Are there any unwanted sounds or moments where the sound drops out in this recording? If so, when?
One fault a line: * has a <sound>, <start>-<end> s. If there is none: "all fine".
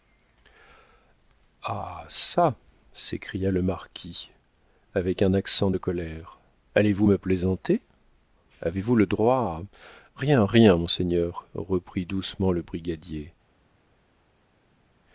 all fine